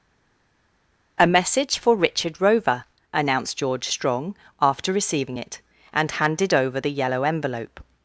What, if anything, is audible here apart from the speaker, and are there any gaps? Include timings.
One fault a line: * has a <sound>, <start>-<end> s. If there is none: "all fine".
all fine